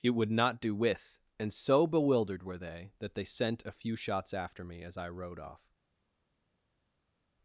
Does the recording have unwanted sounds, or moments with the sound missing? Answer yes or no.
no